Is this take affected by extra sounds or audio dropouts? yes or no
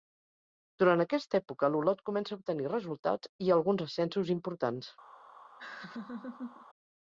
yes